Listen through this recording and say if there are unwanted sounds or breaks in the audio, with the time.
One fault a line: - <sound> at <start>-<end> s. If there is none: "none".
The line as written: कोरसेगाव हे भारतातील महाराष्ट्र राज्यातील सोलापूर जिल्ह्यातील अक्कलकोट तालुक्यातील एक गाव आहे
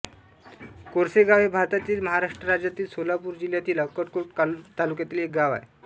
none